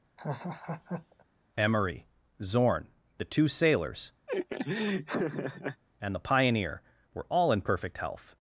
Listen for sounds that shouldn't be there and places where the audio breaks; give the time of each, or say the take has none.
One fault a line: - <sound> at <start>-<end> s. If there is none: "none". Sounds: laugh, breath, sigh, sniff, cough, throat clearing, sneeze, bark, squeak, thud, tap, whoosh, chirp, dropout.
- laugh at 0.2-1.2 s
- laugh at 4.3-5.8 s